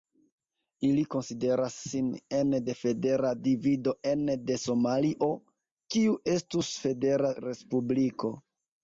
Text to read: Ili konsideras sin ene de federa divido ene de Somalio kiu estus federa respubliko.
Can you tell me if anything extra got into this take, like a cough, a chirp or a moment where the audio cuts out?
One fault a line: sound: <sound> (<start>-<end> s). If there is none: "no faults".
no faults